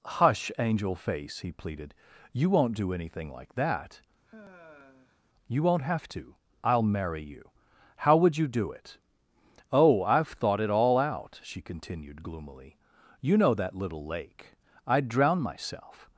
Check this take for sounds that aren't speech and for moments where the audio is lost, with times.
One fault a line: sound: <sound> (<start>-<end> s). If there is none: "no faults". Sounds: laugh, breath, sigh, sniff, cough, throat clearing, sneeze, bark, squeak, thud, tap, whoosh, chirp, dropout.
sound: sigh (4.3-5.2 s)